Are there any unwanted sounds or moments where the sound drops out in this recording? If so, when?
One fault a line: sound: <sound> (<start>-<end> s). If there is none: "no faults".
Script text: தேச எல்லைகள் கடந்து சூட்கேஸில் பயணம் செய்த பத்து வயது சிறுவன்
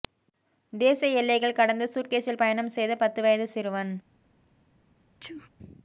sound: sneeze (5.2-5.5 s)